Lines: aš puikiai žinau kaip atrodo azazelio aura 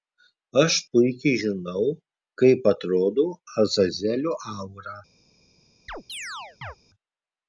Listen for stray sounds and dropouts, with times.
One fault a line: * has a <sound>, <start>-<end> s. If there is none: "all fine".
* has a chirp, 5.9-6.8 s